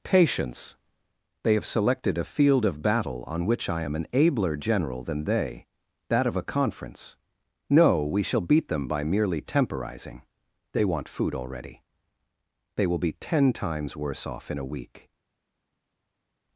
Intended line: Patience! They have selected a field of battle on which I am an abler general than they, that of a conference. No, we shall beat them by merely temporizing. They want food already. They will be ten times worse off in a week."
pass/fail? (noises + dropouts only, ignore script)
pass